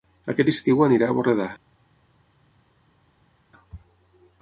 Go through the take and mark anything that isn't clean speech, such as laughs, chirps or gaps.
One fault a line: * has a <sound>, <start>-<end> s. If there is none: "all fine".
all fine